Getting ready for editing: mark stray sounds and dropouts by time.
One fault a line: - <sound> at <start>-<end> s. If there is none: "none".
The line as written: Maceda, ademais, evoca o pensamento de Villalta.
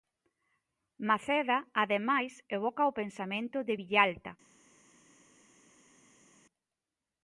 none